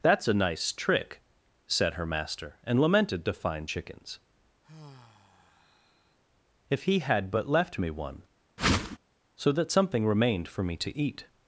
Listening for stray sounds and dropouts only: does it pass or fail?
fail